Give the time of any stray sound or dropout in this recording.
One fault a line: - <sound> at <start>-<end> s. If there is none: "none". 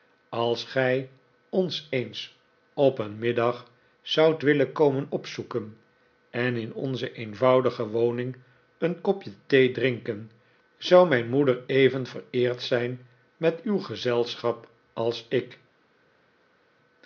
none